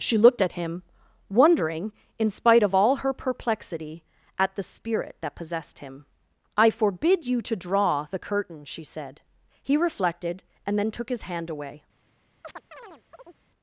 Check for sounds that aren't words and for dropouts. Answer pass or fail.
fail